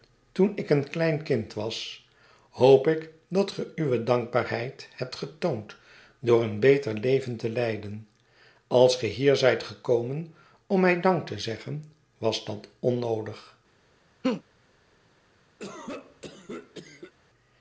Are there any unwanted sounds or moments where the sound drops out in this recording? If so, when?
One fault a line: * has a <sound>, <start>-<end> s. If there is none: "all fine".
* has a laugh, 14.2-14.4 s
* has a cough, 15.6-17.1 s